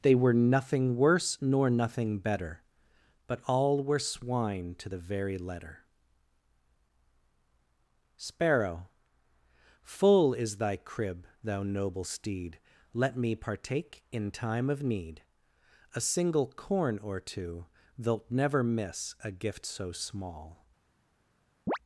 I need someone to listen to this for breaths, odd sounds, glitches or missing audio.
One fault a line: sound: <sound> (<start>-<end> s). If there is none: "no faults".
sound: chirp (21.7-21.8 s)